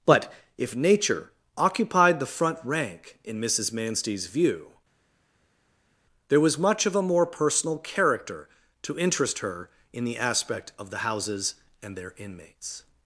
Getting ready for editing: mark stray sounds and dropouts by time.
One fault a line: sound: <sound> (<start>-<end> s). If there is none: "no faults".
no faults